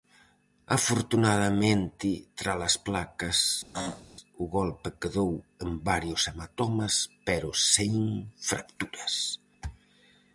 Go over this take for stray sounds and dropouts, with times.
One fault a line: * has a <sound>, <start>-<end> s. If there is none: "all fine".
* has a throat clearing, 3.7-4.0 s